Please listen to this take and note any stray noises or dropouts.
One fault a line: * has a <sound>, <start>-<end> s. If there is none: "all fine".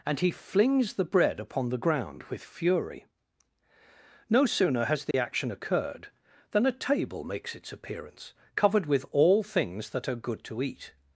* has a dropout, 5.1-5.1 s